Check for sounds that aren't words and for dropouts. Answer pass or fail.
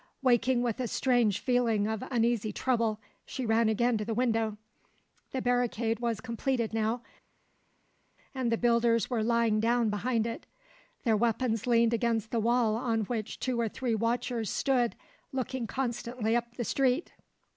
pass